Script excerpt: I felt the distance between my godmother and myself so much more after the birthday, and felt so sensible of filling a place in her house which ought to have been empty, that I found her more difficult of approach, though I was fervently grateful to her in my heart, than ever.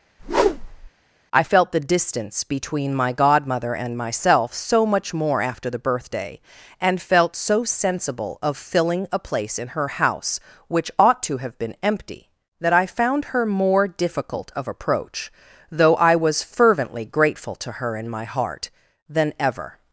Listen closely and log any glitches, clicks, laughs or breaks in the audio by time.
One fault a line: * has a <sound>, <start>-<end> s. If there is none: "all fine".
* has a whoosh, 0.2-0.9 s